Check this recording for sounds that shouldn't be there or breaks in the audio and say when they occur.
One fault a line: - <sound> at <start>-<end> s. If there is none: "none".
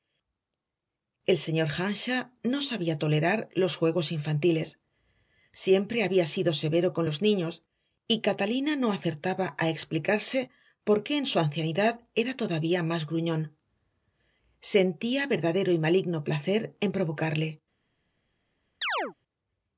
- chirp at 18.8-19.1 s